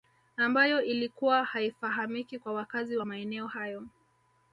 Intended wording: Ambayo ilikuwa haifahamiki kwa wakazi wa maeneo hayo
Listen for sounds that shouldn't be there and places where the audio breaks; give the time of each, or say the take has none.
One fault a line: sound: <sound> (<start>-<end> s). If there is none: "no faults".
no faults